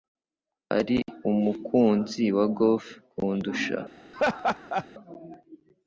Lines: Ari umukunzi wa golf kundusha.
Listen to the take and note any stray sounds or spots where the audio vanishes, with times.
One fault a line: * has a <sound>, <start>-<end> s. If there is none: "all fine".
* has a laugh, 4.1-4.9 s